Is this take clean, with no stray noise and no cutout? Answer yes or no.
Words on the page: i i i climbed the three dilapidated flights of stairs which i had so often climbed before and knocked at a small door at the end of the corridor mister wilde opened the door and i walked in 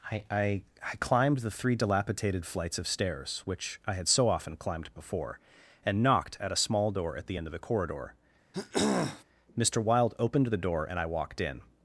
no